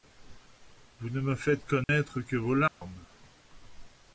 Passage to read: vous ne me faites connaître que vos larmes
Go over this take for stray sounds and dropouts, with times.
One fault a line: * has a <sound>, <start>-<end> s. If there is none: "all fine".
* has a dropout, 1.8-1.9 s
* has a dropout, 2.7-2.8 s